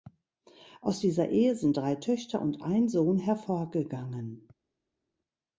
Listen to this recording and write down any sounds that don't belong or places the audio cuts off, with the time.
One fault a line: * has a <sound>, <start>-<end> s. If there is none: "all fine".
all fine